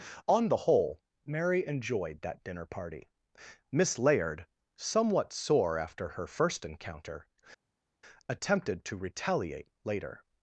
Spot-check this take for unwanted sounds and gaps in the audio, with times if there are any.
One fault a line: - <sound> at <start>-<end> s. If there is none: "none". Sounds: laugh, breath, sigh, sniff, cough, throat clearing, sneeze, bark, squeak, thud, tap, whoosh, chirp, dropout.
none